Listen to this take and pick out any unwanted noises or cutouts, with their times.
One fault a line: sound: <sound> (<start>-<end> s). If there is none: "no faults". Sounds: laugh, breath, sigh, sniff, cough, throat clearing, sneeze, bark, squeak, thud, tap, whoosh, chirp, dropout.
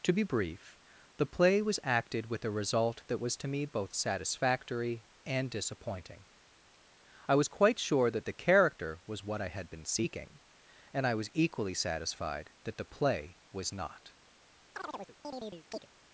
sound: chirp (14.7-15.9 s)